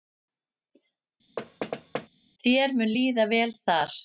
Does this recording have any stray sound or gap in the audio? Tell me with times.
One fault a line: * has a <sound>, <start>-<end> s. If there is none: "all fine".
* has a thud, 1.4-2.1 s